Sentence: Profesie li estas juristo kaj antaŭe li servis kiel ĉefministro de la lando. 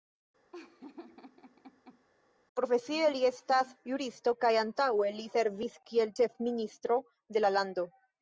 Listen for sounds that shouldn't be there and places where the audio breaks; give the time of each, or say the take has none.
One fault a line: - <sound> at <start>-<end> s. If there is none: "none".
- laugh at 0.5-2.0 s